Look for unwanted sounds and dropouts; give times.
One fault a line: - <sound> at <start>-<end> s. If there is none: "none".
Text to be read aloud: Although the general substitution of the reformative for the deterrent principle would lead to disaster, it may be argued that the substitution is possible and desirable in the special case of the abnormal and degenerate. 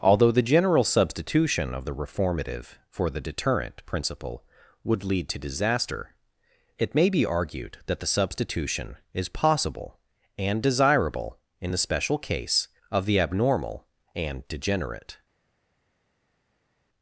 none